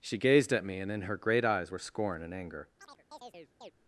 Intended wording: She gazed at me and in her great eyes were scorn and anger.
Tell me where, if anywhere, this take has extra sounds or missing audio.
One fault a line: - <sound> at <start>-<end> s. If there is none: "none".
- chirp at 2.8-3.7 s